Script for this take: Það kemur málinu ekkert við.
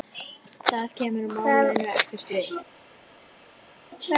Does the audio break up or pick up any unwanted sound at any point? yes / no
no